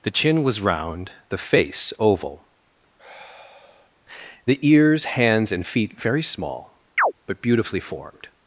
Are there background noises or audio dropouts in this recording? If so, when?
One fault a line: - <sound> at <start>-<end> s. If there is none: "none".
- sigh at 3.0-3.9 s
- chirp at 7.0-7.1 s